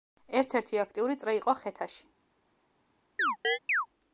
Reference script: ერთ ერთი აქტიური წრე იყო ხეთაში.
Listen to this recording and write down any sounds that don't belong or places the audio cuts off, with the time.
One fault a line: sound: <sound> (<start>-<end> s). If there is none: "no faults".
sound: chirp (3.2-3.9 s)